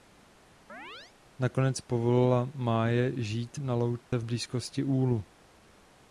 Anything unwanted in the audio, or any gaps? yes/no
yes